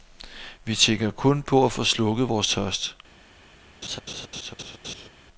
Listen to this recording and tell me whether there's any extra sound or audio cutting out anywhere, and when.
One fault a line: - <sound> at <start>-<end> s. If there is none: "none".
- laugh at 3.8-5.1 s